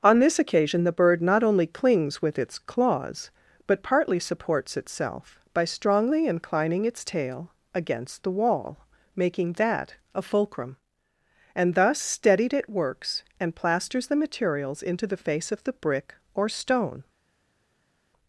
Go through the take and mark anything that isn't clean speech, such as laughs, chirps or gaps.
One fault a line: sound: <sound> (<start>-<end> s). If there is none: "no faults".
no faults